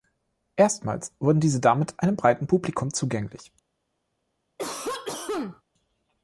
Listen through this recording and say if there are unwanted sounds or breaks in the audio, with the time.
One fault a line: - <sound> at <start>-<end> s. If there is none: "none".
- cough at 4.6-5.6 s